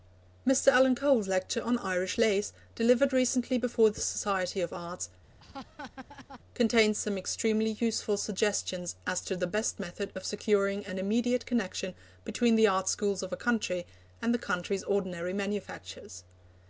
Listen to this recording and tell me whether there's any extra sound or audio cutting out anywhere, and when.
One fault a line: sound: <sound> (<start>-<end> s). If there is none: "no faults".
sound: laugh (5.4-6.4 s)